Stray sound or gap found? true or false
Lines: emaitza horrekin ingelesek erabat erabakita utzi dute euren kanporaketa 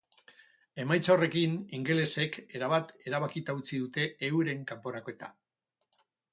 false